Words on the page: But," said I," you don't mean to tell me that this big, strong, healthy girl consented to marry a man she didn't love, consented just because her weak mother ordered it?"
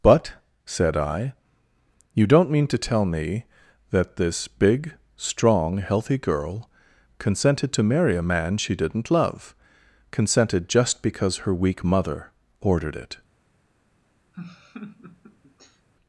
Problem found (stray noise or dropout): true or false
true